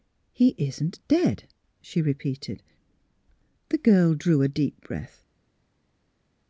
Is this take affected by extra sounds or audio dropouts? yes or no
no